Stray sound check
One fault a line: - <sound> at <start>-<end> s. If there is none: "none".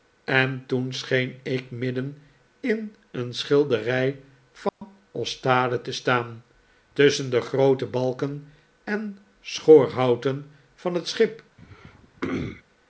- dropout at 4.7-4.8 s
- throat clearing at 11.6-12.6 s